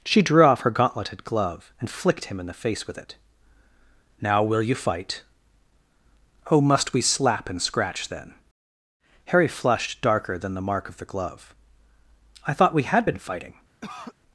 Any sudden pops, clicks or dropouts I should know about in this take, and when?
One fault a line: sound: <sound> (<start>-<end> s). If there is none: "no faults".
sound: cough (13.8-14.2 s)